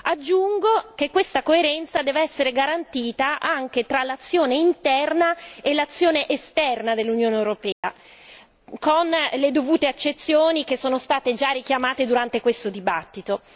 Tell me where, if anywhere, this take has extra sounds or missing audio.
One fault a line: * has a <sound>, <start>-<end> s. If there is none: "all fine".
* has a dropout, 7.7-7.8 s